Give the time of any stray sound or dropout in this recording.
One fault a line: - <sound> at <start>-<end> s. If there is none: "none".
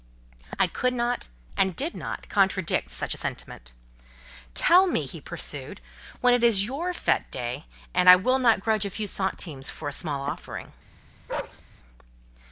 - bark at 11.3-11.6 s